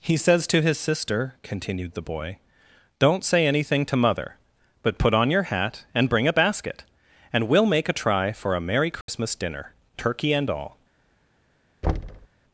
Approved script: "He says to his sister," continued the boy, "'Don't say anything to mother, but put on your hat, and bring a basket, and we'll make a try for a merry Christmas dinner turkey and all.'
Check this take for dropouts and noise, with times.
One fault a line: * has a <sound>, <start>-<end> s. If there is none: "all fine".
* has a dropout, 9.0-9.1 s
* has a thud, 11.8-12.3 s